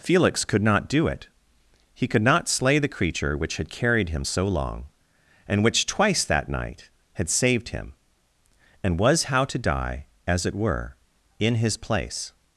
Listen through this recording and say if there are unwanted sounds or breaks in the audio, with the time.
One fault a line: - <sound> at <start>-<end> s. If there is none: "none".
none